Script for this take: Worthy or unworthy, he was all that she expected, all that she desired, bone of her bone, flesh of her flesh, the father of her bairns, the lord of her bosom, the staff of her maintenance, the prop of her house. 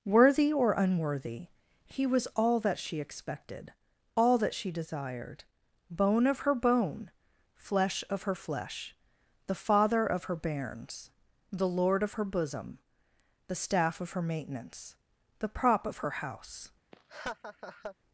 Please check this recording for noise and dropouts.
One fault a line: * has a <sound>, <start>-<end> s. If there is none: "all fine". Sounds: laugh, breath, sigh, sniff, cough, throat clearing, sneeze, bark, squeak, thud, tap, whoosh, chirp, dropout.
* has a laugh, 16.9-18.0 s